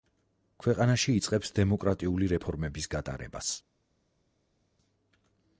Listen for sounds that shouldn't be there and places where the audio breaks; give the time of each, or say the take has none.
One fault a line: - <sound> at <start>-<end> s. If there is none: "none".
none